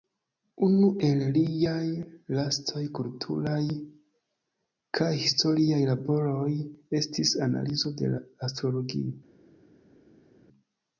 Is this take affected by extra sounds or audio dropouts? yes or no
no